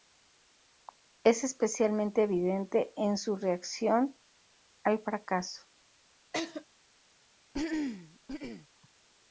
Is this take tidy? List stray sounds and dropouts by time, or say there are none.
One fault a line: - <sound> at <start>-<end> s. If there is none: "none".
- laugh at 6.3-6.6 s
- throat clearing at 7.5-8.7 s